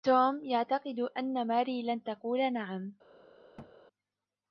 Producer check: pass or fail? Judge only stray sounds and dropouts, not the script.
fail